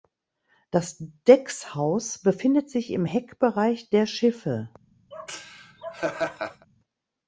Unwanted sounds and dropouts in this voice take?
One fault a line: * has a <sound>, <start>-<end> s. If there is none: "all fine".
* has a laugh, 5.1-6.7 s